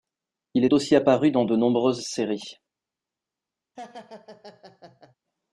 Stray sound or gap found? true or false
true